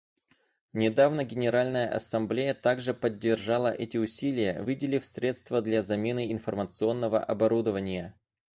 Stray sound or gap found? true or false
false